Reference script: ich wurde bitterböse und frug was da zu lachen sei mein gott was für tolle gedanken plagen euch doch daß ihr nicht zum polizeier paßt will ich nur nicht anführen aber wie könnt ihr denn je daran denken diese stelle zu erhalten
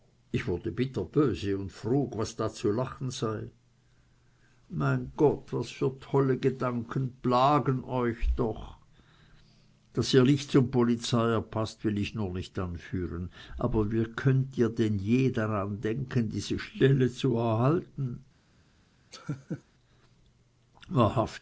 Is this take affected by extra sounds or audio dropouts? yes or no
yes